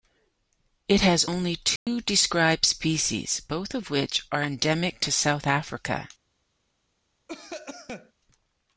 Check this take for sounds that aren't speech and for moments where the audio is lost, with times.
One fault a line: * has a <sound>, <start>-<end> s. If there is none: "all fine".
* has a dropout, 1.8-1.9 s
* has a cough, 7.3-8.1 s